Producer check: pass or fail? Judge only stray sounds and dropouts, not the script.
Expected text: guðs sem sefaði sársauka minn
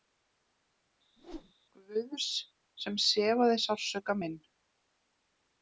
fail